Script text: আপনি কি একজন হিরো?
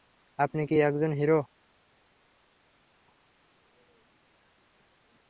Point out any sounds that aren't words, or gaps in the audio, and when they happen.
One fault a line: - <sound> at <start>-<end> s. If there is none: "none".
none